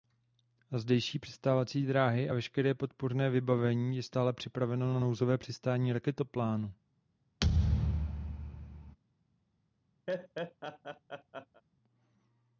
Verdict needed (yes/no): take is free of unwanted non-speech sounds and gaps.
no